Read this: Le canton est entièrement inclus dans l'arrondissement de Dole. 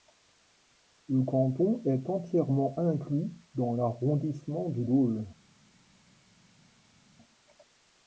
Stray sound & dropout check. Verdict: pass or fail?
pass